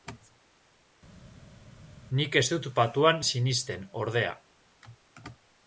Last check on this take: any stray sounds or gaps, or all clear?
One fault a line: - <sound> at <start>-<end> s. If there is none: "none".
none